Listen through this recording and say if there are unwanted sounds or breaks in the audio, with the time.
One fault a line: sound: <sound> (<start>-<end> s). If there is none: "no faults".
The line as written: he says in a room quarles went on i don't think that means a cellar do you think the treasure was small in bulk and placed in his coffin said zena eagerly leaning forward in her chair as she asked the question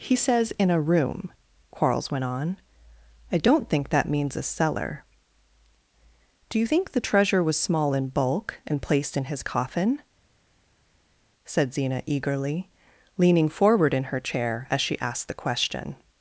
no faults